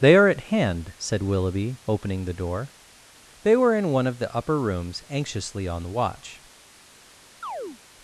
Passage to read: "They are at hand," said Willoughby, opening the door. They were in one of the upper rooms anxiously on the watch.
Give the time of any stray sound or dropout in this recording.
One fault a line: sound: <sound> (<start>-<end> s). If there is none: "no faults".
sound: chirp (7.4-7.8 s)